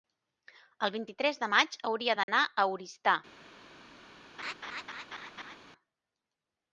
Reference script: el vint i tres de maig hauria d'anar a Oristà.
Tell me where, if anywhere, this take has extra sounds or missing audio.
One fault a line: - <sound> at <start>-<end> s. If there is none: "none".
- dropout at 2.2-2.3 s
- laugh at 4.4-5.6 s